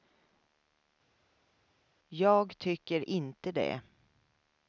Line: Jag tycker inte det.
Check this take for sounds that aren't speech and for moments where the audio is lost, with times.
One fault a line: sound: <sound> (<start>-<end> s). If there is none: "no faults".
no faults